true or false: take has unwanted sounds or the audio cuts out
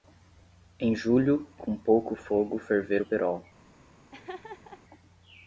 true